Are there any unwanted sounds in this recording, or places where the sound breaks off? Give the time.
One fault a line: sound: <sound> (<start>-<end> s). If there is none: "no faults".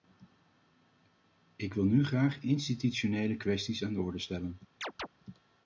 sound: chirp (4.8-5.1 s)